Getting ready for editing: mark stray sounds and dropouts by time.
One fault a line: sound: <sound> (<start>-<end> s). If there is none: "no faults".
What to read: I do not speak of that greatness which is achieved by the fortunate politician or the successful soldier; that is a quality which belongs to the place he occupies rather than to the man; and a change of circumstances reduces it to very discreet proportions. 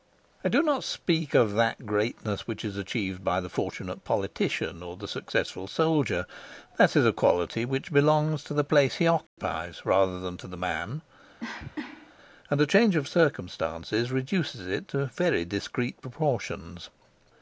sound: dropout (9.3-9.4 s)
sound: cough (11.4-12.1 s)